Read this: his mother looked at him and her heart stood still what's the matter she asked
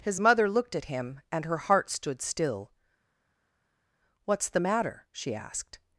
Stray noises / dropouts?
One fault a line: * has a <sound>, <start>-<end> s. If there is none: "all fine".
all fine